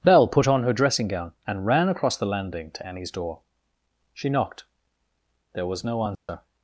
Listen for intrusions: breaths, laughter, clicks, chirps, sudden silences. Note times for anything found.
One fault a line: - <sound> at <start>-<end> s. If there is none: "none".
- dropout at 6.1-6.3 s